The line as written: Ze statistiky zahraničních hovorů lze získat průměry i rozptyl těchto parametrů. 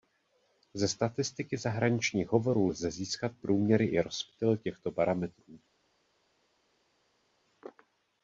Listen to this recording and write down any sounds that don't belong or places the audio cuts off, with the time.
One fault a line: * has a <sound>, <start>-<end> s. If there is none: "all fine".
all fine